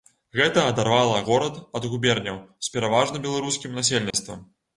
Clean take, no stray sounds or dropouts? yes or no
no